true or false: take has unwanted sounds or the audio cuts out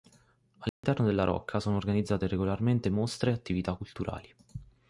true